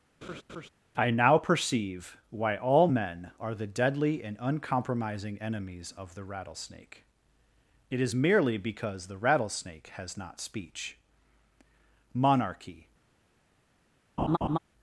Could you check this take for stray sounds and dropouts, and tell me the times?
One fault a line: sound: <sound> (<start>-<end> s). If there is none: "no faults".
sound: laugh (0.2-0.7 s)
sound: laugh (14.2-14.6 s)